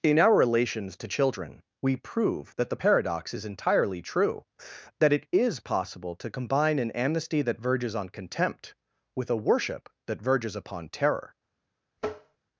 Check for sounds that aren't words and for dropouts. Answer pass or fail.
fail